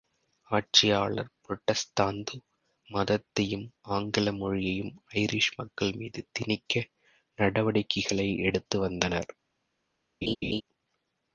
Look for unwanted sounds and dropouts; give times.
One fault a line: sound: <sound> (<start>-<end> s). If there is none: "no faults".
sound: laugh (10.2-10.6 s)